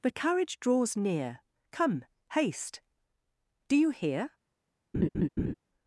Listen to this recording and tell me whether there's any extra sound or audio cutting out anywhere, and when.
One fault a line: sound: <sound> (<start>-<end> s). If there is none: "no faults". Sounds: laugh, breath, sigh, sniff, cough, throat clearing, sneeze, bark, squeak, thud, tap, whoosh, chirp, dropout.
sound: laugh (4.9-5.5 s)